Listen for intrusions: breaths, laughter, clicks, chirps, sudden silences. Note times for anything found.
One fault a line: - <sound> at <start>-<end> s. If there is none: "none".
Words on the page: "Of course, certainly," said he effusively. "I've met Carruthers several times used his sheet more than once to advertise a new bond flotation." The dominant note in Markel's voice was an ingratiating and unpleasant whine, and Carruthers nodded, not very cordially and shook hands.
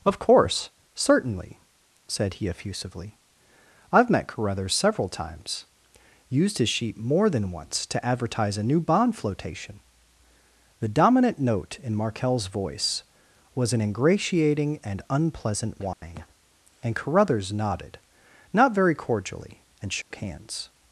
- dropout at 15.9-16.0 s
- dropout at 20.0-20.1 s